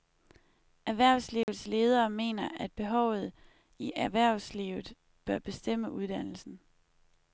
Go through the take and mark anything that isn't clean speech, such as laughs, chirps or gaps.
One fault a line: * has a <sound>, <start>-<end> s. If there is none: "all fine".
* has a dropout, 1.4-1.5 s